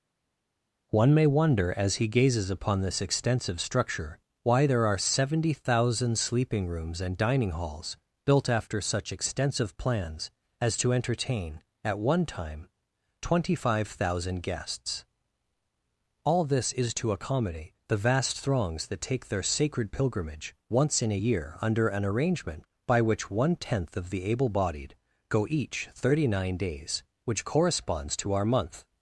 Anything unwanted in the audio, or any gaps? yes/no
no